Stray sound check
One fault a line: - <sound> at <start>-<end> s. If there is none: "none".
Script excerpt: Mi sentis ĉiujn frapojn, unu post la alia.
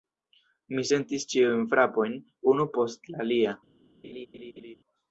- laugh at 4.0-4.7 s